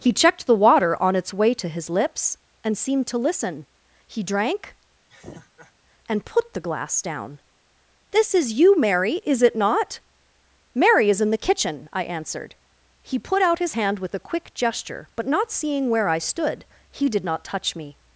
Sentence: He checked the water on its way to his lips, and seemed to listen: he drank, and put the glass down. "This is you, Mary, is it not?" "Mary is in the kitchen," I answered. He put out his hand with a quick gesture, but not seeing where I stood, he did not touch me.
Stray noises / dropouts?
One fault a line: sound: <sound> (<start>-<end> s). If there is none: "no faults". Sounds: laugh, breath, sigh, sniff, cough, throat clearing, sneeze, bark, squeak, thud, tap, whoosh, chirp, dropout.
sound: laugh (5.1-5.7 s)